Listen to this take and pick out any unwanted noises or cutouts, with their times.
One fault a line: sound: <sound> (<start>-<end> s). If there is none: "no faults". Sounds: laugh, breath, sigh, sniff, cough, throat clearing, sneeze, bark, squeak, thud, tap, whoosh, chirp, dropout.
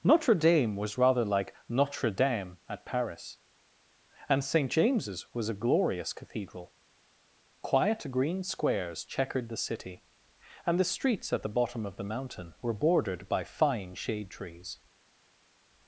no faults